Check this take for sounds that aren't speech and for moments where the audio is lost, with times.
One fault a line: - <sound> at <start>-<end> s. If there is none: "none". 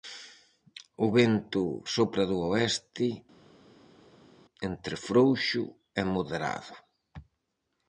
none